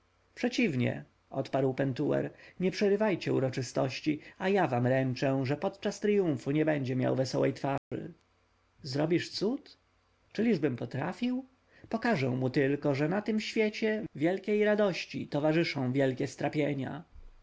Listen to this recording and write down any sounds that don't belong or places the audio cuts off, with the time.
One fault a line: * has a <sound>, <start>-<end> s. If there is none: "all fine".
* has a dropout, 7.8-7.9 s